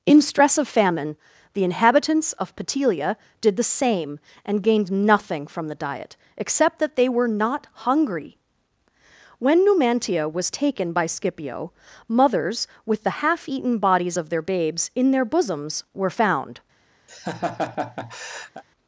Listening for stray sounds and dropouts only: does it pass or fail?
fail